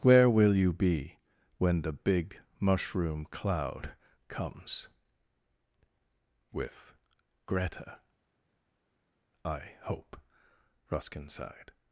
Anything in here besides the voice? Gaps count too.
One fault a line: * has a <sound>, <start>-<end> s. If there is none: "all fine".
all fine